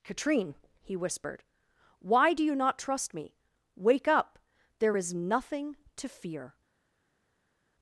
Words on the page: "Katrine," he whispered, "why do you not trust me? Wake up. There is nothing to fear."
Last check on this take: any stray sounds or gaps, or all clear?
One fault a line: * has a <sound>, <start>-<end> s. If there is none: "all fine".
all fine